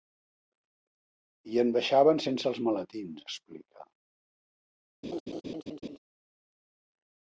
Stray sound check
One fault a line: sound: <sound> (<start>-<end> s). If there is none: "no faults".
sound: laugh (5.0-6.0 s)